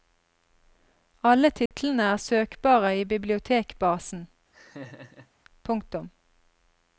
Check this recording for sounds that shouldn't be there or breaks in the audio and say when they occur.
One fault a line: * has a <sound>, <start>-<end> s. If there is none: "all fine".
* has a dropout, 1.7-1.7 s
* has a laugh, 4.5-5.3 s